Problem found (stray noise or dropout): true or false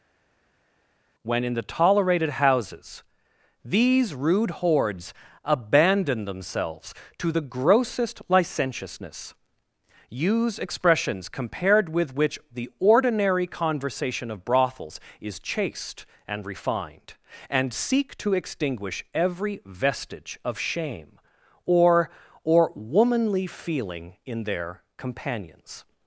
false